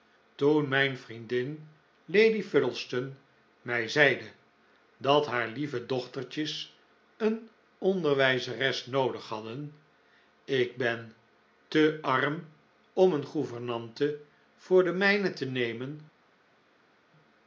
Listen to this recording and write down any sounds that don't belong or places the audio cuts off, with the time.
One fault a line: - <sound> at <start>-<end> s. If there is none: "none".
none